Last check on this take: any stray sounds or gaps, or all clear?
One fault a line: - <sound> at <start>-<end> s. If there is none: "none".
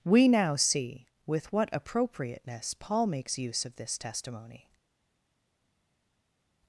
none